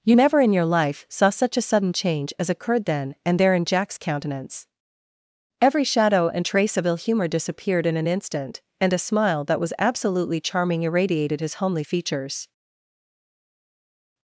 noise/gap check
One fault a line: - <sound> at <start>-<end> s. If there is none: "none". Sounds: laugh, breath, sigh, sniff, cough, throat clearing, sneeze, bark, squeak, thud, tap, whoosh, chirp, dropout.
none